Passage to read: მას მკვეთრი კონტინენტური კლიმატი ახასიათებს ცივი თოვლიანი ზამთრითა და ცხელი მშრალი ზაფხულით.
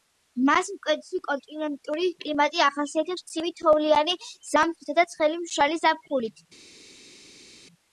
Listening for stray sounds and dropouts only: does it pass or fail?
pass